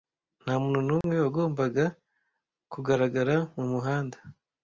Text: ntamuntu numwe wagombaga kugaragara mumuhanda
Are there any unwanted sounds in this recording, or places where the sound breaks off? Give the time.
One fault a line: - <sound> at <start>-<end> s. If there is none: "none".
- dropout at 1.0-1.0 s